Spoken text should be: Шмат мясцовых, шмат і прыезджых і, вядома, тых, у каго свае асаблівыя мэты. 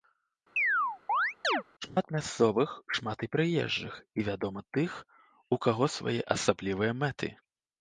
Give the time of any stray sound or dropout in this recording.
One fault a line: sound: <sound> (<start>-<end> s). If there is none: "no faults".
sound: chirp (0.6-1.6 s)